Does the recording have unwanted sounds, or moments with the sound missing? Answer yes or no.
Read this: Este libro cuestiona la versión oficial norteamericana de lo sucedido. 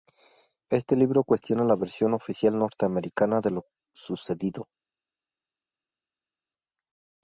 no